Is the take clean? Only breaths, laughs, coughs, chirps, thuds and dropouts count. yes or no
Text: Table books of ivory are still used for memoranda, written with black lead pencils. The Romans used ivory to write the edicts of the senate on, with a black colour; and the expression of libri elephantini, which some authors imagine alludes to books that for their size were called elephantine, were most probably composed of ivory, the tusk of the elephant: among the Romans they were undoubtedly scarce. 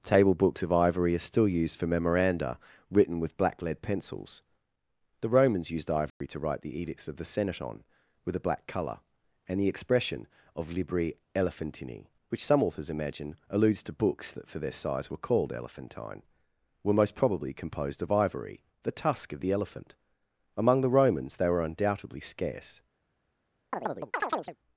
no